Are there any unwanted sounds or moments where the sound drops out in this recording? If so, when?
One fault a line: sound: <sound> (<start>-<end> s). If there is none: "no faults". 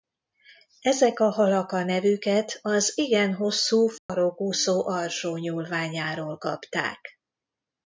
sound: dropout (4.0-4.1 s)